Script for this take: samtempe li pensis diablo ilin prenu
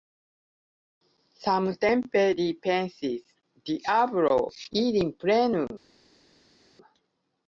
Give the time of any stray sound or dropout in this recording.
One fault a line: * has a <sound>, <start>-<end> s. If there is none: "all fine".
all fine